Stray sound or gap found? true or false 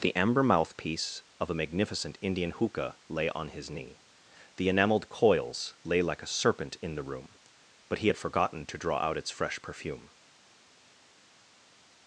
false